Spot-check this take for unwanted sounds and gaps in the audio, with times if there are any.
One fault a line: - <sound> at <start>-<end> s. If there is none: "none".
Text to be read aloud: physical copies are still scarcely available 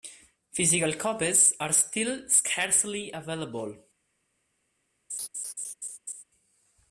- laugh at 5.1-6.2 s